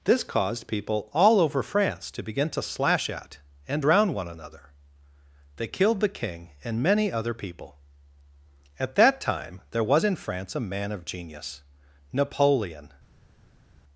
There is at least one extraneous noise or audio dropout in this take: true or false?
false